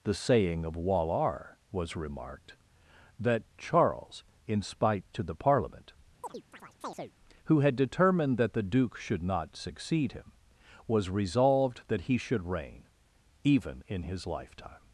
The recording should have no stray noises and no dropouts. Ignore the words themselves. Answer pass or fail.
fail